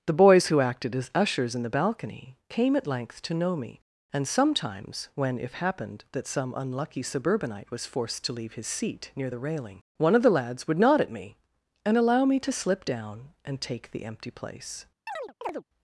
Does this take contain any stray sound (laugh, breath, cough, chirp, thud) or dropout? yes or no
yes